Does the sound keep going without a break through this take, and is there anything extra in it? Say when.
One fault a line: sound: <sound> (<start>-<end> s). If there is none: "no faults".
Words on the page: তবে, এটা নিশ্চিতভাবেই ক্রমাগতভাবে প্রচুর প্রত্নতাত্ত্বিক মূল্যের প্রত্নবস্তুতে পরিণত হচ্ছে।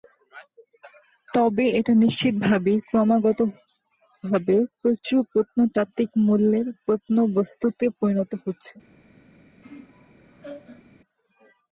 sound: laugh (9.6-10.9 s)